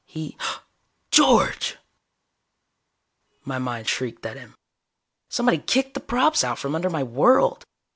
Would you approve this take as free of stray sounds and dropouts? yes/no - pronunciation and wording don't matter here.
yes